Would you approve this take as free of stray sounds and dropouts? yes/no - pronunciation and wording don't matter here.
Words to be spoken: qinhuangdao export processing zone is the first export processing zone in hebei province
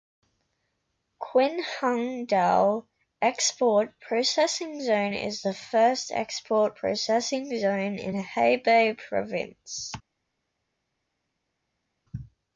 yes